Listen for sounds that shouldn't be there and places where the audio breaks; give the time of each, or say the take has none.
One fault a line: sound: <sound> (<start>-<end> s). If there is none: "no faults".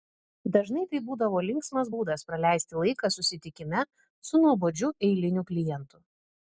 no faults